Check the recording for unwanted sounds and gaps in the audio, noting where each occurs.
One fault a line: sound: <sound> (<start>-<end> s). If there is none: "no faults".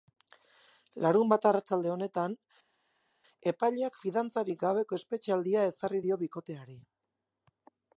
no faults